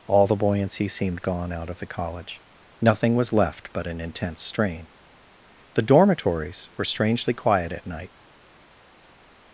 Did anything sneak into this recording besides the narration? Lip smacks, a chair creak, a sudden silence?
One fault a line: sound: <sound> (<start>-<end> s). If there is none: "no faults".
no faults